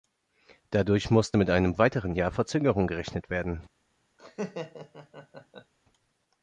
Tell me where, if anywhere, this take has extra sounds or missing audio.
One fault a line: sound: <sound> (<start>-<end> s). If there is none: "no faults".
sound: laugh (4.2-5.7 s)